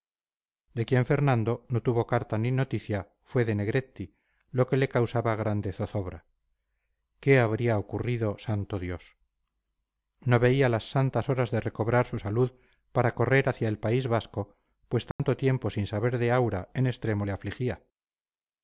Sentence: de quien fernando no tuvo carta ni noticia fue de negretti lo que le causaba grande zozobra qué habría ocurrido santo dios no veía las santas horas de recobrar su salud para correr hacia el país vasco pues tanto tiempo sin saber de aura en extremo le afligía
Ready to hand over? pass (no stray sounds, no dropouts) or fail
fail